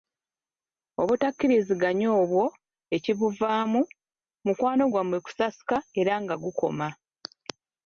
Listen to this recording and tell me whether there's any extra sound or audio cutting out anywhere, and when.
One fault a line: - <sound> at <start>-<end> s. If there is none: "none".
none